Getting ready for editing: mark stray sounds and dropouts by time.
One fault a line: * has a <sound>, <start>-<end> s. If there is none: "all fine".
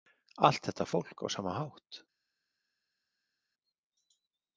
all fine